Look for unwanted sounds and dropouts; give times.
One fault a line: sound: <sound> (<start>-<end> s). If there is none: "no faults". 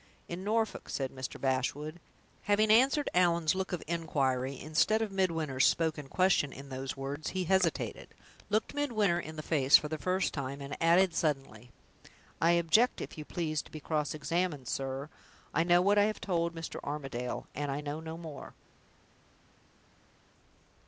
no faults